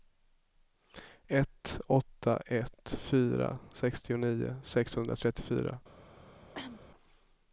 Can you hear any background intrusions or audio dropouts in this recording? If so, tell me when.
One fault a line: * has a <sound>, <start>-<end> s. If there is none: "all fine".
* has a cough, 6.5-6.8 s